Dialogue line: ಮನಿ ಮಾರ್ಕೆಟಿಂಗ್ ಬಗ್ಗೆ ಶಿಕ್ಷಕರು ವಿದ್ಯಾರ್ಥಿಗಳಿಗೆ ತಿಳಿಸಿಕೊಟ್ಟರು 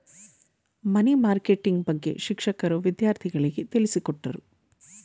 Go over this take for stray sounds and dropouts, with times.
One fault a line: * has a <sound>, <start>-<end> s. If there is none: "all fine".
all fine